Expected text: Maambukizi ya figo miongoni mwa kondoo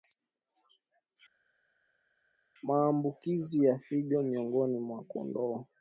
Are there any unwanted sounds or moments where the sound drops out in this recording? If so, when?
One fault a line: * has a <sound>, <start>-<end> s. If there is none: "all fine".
all fine